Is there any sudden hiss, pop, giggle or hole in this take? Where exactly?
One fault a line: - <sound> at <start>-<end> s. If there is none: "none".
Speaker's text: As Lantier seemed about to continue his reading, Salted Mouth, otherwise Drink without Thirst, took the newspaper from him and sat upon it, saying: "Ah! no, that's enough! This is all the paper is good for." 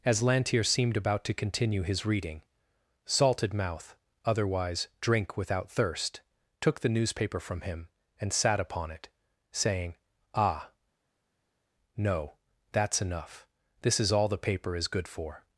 none